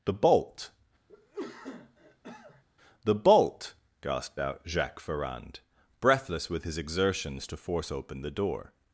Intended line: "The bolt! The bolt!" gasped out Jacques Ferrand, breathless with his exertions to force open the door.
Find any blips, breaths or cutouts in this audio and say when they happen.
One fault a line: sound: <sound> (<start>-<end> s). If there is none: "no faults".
sound: cough (1.1-2.6 s)